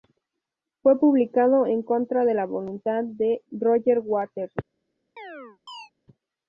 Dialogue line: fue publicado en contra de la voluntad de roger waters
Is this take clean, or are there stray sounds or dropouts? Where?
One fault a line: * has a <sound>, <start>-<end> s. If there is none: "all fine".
* has a chirp, 5.2-5.9 s